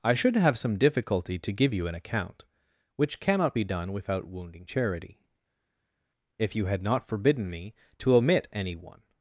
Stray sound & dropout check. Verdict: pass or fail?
pass